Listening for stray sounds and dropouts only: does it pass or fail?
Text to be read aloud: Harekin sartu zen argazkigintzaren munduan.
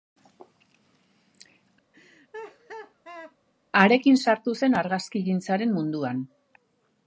fail